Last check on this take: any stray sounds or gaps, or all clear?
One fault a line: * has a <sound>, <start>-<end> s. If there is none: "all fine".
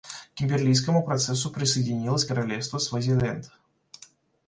all fine